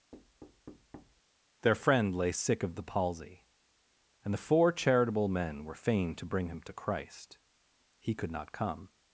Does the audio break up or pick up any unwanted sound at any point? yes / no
yes